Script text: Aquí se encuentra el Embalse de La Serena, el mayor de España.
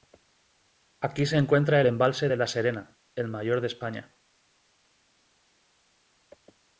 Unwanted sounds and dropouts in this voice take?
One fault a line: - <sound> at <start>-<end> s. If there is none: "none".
none